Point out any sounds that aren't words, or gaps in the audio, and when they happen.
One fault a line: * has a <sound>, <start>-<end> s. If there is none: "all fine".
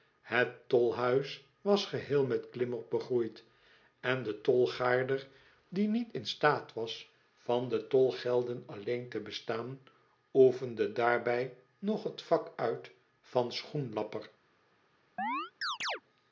* has a chirp, 15.2-16.0 s